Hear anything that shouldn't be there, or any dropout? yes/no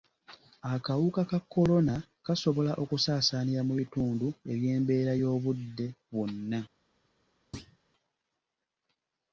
yes